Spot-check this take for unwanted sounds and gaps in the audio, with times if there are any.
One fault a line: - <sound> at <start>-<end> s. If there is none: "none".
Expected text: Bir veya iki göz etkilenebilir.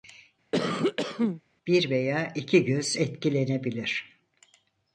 - cough at 0.5-1.4 s